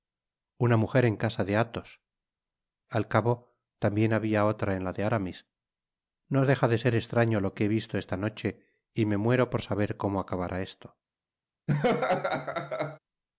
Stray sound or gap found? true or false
true